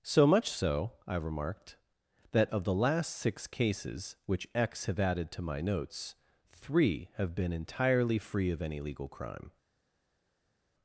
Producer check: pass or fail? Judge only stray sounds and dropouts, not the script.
pass